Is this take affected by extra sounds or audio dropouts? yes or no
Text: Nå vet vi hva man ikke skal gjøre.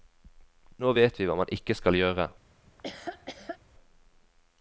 yes